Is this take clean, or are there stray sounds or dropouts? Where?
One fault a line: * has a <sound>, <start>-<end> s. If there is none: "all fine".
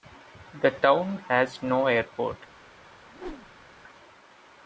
* has a whoosh, 3.1-3.7 s